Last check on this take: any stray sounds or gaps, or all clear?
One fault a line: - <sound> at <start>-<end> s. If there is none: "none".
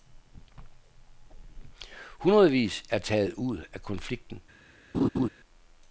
- laugh at 4.9-5.3 s